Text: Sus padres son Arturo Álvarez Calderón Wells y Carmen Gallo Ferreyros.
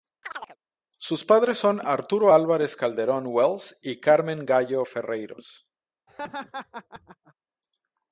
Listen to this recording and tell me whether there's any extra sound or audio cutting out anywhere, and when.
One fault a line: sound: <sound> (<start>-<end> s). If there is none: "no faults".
sound: chirp (0.2-0.6 s)
sound: laugh (6.1-7.3 s)